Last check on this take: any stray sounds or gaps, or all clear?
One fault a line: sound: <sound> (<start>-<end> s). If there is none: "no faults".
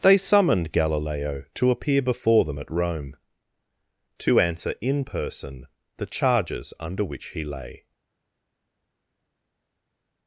no faults